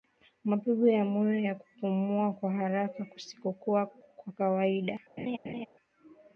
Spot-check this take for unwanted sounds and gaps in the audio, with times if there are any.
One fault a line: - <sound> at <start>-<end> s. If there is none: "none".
- laugh at 5.2-5.7 s